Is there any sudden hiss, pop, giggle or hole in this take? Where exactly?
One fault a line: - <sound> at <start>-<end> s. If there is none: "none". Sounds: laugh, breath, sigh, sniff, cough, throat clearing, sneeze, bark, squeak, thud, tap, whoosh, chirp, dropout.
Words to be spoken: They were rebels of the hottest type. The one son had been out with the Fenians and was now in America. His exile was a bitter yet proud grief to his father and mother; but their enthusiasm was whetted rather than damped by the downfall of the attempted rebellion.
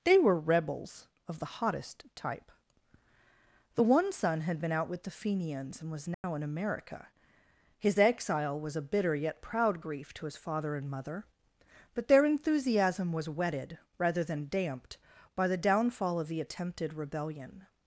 - dropout at 6.1-6.2 s